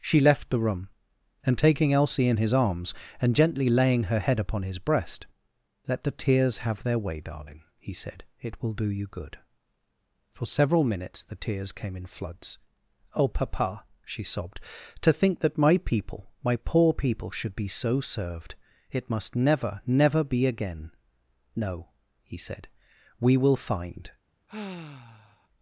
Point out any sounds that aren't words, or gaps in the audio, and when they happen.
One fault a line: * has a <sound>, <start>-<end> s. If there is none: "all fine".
* has a sigh, 24.5-25.5 s